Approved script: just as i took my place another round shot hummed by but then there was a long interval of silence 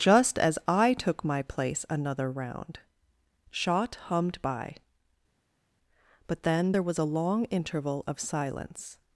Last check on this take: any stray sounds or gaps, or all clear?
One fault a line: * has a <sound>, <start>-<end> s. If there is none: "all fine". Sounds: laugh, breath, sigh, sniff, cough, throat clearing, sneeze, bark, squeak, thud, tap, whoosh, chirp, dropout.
all fine